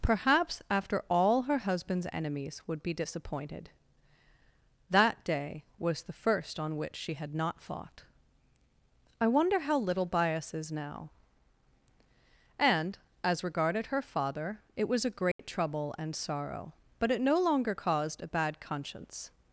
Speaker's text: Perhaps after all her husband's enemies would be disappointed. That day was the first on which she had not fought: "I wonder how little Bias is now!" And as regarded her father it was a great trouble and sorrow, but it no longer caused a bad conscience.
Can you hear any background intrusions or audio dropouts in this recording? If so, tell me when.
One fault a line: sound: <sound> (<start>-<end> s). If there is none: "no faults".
sound: dropout (15.3-15.4 s)